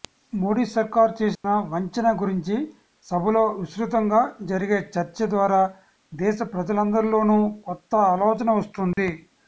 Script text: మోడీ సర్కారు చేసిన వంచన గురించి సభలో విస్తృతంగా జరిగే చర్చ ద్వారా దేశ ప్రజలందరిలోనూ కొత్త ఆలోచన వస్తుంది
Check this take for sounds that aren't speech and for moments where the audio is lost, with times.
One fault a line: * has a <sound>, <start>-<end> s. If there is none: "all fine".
* has a dropout, 1.4-1.4 s
* has a dropout, 8.9-9.0 s